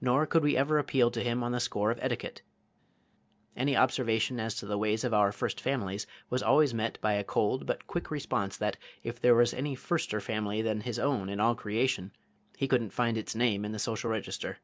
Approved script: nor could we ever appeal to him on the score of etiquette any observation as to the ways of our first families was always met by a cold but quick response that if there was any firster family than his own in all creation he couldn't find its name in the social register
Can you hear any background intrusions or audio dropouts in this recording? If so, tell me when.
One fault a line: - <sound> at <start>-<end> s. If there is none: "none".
none